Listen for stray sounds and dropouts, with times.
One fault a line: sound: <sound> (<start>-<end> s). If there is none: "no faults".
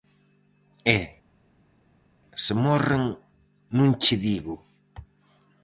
no faults